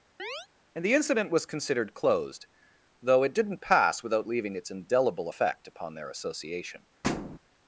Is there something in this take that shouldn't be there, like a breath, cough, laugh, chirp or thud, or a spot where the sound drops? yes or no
yes